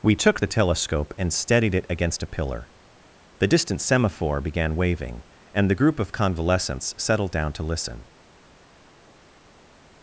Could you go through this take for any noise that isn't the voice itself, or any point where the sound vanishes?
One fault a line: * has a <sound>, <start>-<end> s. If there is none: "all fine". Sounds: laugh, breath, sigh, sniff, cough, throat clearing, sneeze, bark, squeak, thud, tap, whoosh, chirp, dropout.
all fine